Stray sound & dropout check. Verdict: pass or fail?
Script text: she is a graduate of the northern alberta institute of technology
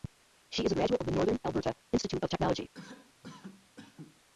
fail